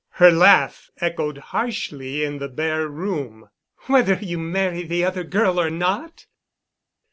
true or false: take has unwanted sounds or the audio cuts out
false